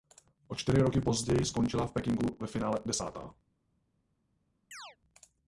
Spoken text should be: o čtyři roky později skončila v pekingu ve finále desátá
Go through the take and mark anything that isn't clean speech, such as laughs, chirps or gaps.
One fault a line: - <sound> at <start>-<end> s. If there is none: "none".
- chirp at 4.7-5.0 s